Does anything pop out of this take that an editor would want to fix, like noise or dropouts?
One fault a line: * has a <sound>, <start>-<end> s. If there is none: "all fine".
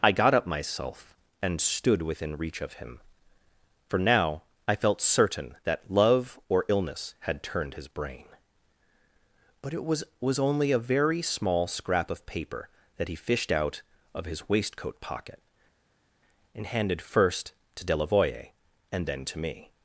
all fine